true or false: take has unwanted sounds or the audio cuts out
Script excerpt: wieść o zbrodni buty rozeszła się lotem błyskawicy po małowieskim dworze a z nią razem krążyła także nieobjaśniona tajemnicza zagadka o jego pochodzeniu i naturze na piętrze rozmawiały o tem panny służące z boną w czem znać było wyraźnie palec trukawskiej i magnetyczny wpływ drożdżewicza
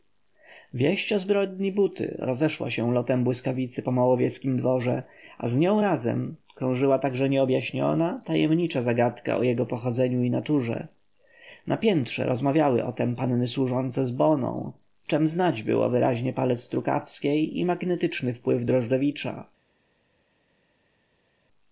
false